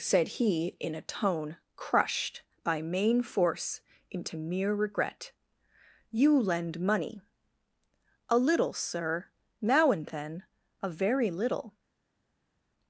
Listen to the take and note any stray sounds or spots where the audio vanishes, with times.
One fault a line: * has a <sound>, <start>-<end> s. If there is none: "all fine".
all fine